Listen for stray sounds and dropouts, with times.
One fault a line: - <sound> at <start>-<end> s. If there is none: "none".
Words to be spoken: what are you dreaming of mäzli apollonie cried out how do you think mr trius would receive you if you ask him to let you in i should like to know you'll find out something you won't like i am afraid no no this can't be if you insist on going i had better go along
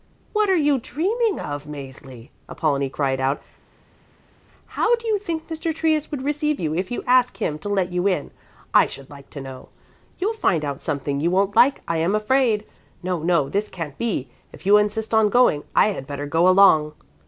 none